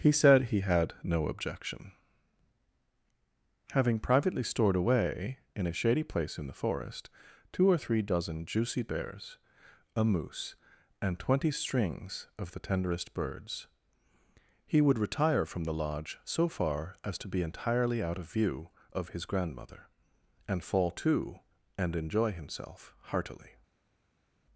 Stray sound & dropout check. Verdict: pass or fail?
pass